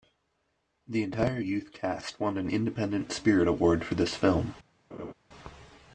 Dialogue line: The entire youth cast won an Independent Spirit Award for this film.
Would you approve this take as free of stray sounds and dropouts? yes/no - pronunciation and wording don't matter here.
no